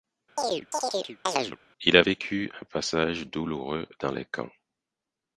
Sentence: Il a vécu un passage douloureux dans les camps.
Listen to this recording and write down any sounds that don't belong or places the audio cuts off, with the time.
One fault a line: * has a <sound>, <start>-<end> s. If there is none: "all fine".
* has a chirp, 0.4-1.6 s